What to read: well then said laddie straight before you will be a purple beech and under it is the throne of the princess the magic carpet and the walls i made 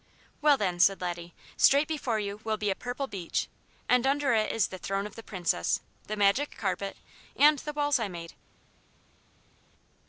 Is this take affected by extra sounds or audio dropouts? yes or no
no